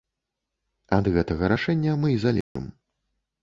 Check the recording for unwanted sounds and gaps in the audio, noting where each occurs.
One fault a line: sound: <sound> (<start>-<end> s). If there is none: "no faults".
sound: dropout (2.4-2.6 s)